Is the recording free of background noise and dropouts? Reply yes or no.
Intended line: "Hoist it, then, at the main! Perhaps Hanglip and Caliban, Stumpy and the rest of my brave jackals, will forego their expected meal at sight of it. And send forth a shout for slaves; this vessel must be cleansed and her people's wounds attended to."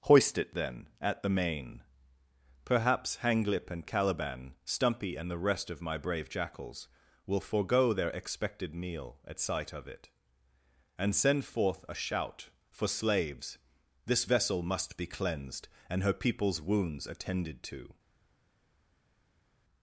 yes